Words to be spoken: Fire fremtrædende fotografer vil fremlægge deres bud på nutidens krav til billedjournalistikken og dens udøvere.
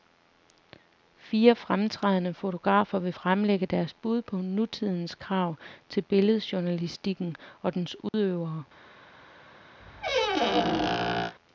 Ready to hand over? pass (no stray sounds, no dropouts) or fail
fail